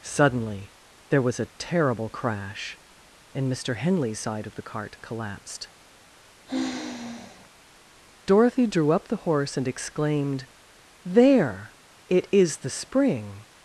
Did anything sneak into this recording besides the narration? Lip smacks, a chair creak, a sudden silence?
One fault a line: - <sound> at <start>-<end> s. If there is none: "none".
- sigh at 6.5-7.5 s